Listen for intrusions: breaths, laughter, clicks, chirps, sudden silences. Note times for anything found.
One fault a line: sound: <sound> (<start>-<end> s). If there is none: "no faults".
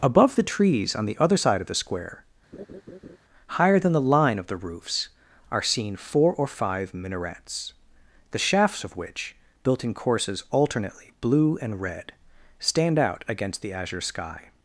sound: laugh (2.5-3.2 s)